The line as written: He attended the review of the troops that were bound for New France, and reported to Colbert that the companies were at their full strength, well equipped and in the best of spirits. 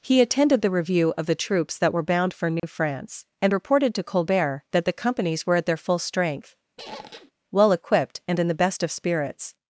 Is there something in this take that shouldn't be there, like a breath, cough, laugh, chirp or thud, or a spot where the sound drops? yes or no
yes